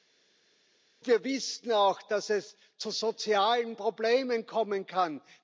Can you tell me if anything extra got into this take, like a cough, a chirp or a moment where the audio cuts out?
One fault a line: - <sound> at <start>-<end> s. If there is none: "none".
none